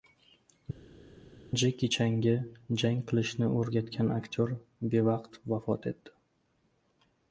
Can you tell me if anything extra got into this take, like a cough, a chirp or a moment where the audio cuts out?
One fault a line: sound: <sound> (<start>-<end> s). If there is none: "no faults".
no faults